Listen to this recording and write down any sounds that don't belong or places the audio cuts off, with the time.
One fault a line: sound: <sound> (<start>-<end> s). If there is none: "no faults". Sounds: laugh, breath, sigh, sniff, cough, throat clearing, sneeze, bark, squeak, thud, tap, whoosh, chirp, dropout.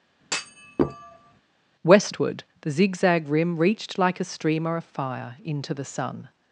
sound: thud (0.2-1.4 s)